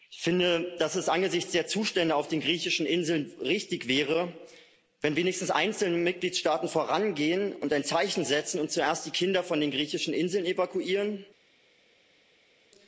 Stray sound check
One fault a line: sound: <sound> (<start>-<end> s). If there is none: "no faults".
no faults